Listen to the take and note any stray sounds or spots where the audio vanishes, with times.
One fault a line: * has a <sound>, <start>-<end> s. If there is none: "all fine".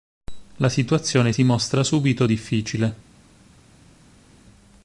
all fine